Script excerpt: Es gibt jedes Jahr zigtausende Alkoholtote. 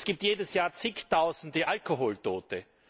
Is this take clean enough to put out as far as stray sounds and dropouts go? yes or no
yes